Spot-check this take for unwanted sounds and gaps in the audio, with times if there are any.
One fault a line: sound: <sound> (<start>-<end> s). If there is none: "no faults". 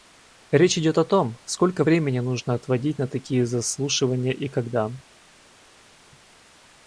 no faults